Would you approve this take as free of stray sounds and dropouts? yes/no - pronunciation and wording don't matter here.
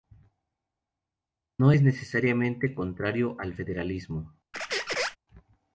no